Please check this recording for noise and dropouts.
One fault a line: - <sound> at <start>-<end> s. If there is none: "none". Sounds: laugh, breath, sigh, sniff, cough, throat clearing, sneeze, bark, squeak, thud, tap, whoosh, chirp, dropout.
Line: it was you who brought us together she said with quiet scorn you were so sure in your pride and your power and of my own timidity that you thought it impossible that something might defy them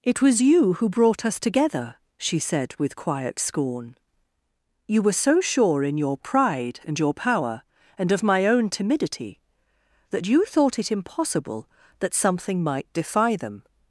none